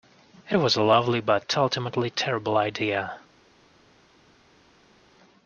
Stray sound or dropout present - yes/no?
no